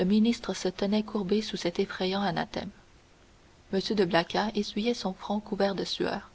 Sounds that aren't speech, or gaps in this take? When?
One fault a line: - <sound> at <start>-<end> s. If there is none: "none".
none